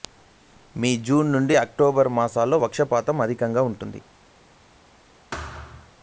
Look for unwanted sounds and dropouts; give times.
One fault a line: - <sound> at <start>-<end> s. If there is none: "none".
- thud at 5.3-5.9 s